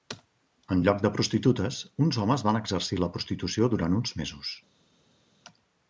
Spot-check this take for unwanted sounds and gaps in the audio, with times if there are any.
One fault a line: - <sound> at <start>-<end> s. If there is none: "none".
none